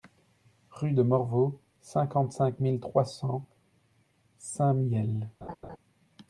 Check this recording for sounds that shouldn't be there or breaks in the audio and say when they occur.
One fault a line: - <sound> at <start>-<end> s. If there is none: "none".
- laugh at 5.4-5.8 s